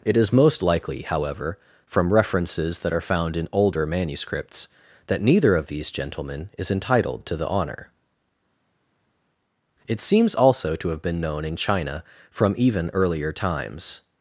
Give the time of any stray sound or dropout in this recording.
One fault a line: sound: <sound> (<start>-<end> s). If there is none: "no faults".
no faults